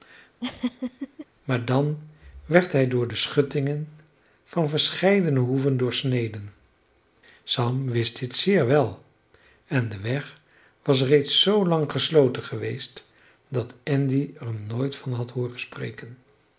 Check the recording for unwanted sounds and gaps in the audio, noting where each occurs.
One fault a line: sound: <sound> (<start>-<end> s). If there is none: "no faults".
sound: laugh (0.4-1.3 s)